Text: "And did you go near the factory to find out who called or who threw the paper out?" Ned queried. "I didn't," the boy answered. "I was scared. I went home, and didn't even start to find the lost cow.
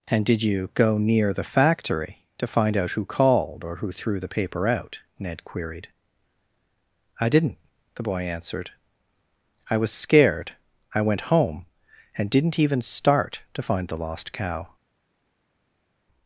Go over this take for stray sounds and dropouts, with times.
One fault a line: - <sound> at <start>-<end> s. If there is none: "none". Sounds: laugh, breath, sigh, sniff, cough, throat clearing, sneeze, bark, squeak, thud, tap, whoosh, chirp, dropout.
none